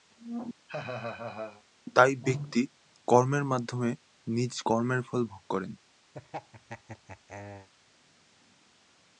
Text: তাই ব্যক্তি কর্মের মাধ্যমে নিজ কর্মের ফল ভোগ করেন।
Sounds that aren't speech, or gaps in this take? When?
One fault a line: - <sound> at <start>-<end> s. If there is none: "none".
- laugh at 0.7-1.6 s
- laugh at 6.1-7.7 s